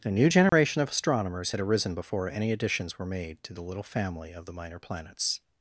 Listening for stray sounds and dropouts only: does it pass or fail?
fail